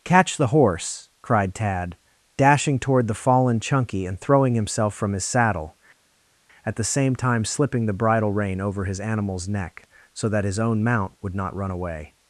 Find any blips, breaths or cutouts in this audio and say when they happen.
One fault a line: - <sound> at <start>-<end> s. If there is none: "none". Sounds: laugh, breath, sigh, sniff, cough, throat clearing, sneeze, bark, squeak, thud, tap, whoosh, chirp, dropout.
none